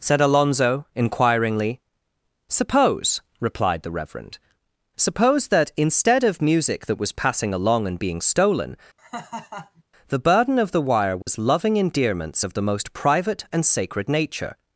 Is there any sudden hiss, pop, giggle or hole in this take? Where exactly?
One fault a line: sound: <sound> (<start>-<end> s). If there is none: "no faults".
sound: laugh (9.0-9.8 s)
sound: dropout (11.2-11.3 s)